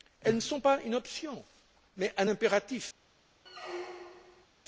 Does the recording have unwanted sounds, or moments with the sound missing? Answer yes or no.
yes